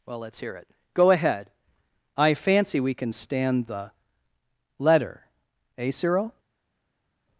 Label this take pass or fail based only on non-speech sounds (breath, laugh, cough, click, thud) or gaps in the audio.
pass